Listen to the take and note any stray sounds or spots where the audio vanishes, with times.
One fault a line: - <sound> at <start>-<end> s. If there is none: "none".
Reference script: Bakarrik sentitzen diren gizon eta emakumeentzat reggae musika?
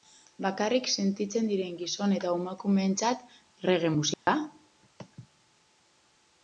- dropout at 4.1-4.3 s